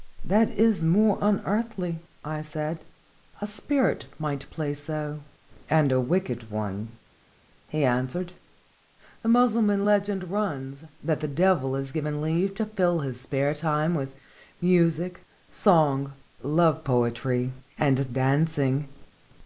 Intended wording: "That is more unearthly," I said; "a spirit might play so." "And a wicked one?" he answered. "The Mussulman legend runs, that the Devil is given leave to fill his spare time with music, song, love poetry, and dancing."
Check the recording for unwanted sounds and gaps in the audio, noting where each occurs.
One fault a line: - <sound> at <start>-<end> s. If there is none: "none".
none